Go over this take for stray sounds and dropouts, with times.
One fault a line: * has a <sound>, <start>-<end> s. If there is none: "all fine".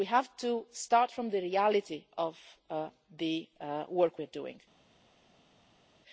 all fine